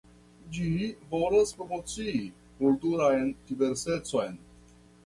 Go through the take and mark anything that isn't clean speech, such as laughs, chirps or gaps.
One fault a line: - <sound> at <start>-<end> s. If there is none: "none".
none